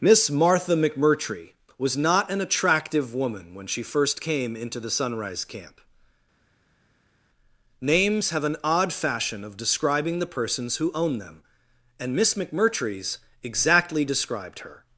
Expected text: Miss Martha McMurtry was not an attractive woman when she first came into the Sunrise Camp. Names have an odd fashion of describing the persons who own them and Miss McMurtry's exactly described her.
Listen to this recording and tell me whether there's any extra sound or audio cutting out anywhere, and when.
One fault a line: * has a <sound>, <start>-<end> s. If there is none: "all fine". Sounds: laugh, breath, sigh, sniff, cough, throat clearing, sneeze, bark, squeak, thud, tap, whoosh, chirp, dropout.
all fine